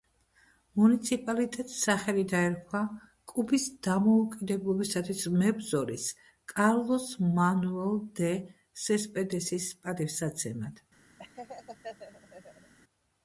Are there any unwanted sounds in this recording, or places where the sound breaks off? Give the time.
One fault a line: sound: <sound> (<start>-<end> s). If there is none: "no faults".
sound: laugh (11.2-12.7 s)